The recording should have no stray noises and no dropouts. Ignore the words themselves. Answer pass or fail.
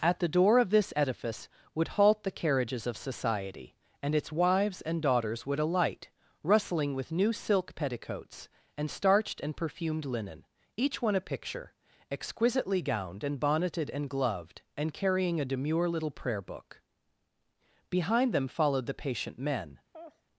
fail